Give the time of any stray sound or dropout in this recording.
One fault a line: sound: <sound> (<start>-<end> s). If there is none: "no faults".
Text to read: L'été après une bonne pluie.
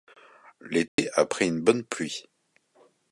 sound: dropout (0.9-1.0 s)